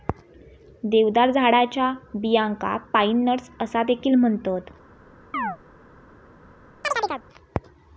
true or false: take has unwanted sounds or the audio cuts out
true